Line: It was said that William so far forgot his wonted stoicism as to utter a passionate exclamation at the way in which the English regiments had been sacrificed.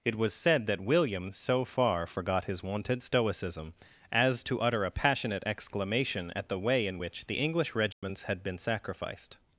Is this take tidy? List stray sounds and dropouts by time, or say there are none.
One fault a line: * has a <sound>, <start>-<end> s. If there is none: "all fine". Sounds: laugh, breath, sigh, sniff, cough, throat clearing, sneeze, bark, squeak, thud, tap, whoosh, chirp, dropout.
* has a dropout, 7.9-8.0 s